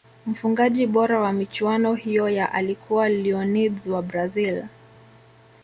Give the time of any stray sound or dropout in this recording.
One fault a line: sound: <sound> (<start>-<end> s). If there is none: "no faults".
no faults